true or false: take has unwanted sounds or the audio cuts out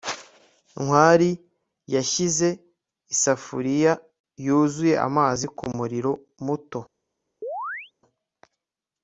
true